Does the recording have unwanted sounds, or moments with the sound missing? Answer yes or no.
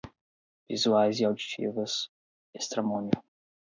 no